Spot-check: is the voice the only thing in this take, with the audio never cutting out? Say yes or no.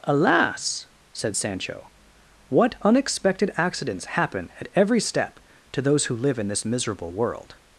yes